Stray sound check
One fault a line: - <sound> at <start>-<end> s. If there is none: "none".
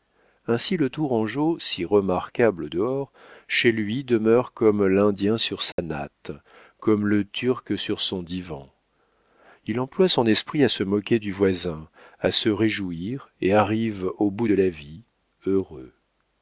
- dropout at 5.7-5.8 s